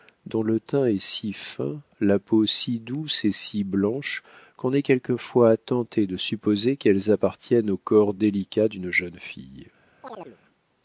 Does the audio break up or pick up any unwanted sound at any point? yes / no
yes